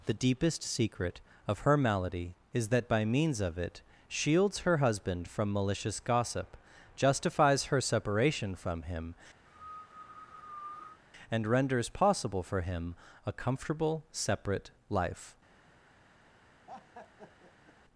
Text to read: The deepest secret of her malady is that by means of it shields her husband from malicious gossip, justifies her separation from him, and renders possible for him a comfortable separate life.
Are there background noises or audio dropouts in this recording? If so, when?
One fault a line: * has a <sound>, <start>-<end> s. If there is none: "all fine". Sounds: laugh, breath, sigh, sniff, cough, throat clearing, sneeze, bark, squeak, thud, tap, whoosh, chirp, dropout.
* has a cough, 9.5-11.0 s
* has a laugh, 16.7-17.8 s